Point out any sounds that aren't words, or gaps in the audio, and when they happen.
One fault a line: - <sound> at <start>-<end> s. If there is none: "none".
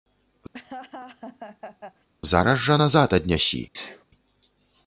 - laugh at 0.5-2.1 s
- sneeze at 3.7-4.0 s